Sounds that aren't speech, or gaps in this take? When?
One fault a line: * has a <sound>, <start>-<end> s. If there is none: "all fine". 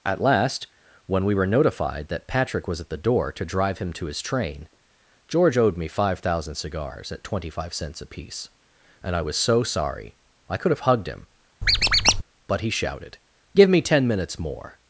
* has a squeak, 11.6-12.2 s